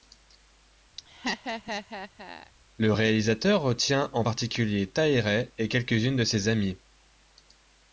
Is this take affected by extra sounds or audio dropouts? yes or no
yes